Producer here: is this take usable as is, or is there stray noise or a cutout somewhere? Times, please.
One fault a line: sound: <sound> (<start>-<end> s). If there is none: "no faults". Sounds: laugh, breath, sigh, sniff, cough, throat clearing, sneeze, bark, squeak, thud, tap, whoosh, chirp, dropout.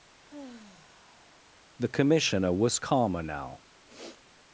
sound: sigh (0.2-1.7 s)
sound: sniff (3.9-4.2 s)